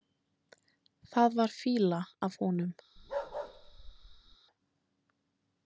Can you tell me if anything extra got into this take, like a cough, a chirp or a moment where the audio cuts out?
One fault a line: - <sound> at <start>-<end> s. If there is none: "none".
- bark at 3.0-4.4 s